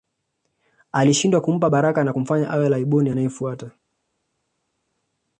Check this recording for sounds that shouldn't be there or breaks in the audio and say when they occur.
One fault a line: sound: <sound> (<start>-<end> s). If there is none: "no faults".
no faults